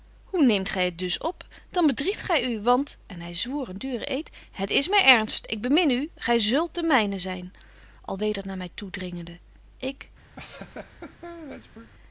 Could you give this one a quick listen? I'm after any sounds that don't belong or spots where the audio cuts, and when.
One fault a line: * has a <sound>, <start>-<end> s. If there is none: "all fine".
* has a laugh, 10.4-11.9 s